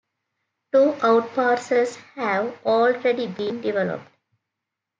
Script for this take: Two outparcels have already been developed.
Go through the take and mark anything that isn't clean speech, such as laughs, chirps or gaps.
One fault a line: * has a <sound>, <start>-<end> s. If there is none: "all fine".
all fine